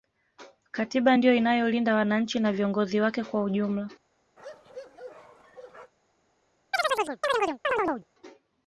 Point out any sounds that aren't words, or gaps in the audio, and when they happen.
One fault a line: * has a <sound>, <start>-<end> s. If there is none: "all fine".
* has a bark, 4.4-5.9 s
* has a chirp, 6.7-8.0 s